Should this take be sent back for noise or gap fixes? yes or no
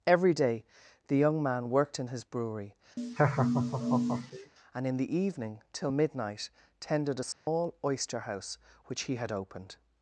yes